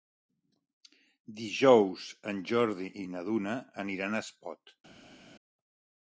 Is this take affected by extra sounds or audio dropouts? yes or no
no